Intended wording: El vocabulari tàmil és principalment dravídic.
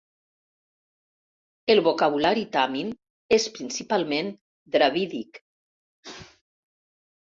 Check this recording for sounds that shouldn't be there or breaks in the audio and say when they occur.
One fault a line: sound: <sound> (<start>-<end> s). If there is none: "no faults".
sound: sneeze (6.0-6.4 s)